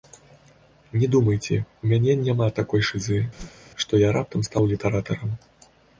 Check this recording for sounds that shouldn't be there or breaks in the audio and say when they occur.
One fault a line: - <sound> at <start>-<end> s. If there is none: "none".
- whoosh at 3.3-3.7 s